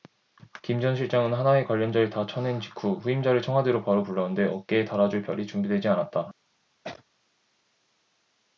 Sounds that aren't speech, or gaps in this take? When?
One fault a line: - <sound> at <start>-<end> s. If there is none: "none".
- sneeze at 6.8-7.0 s